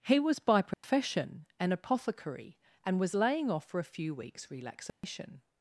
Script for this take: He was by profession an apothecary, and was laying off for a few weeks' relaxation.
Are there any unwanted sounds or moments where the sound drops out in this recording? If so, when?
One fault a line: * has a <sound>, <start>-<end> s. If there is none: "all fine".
* has a dropout, 0.7-0.8 s
* has a dropout, 4.9-5.0 s